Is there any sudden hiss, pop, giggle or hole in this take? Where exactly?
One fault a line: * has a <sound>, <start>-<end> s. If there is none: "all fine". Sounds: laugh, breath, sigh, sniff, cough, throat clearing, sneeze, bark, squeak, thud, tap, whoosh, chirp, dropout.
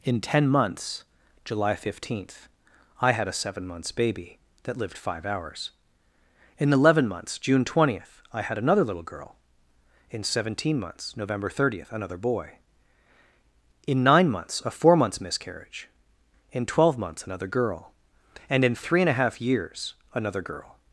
all fine